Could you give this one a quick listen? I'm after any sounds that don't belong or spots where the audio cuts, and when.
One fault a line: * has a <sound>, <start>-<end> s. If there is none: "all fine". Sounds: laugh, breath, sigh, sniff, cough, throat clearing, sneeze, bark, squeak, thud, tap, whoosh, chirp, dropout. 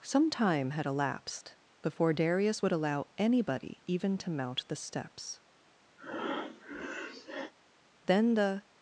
* has a breath, 6.0-7.5 s